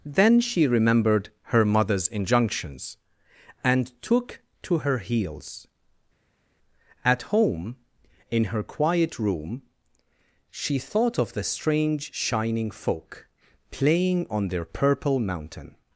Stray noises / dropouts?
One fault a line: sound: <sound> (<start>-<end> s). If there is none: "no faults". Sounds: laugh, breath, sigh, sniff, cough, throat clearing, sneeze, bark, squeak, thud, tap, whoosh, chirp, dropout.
no faults